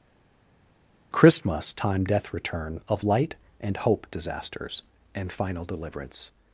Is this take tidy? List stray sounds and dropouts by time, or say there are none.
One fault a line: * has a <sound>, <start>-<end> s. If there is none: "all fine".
all fine